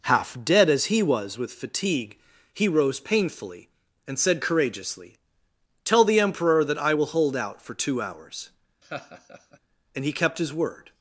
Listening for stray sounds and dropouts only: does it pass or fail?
fail